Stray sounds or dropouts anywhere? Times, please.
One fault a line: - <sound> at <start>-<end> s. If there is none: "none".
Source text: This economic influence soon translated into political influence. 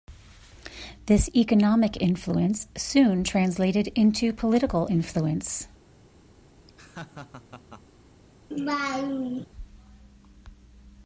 - laugh at 6.7-7.8 s
- laugh at 8.5-9.5 s